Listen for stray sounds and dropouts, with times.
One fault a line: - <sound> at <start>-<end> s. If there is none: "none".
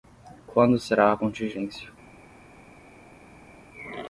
none